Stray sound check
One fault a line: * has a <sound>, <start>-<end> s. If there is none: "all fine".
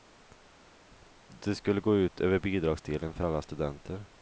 all fine